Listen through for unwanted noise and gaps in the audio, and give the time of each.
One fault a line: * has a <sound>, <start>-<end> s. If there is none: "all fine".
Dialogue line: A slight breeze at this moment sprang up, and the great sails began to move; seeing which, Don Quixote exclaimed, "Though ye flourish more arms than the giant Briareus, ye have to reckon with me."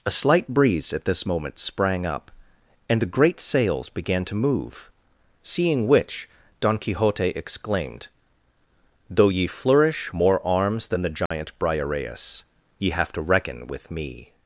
* has a dropout, 11.3-11.3 s